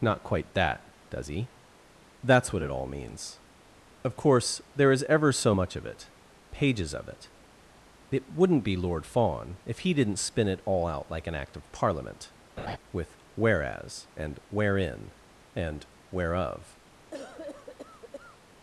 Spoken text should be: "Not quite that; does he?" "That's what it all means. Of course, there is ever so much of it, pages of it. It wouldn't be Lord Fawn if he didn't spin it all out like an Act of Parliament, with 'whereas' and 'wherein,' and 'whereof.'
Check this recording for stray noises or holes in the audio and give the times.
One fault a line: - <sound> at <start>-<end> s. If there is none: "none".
- laugh at 12.6-12.8 s
- cough at 17.1-18.4 s